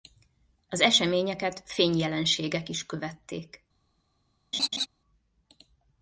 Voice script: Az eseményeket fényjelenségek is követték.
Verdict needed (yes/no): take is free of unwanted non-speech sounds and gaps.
no